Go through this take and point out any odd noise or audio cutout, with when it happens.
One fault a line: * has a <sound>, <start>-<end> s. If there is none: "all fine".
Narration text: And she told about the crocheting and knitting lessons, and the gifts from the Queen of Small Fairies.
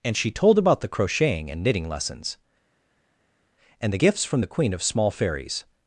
all fine